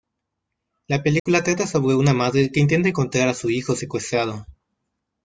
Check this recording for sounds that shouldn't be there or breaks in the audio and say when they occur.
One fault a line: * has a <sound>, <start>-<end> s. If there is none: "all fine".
* has a dropout, 1.2-1.3 s